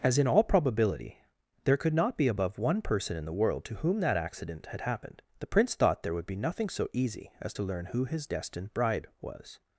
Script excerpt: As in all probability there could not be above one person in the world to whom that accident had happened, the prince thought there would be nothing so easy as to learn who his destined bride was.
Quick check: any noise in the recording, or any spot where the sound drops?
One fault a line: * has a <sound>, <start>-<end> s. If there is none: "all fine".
all fine